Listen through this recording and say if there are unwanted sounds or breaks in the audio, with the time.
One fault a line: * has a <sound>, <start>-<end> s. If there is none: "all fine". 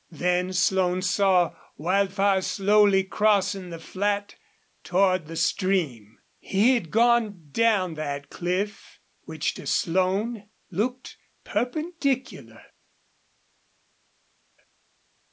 all fine